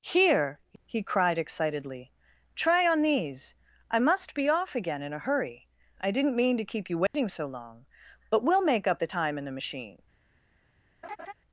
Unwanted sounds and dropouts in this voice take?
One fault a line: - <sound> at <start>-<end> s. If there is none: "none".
- dropout at 7.1-7.1 s
- laugh at 11.0-11.3 s